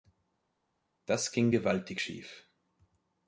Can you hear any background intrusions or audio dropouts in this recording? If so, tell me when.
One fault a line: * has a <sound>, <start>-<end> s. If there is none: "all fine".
all fine